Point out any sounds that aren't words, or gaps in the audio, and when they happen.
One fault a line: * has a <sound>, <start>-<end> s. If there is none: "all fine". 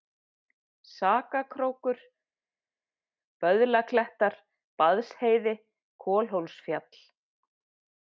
all fine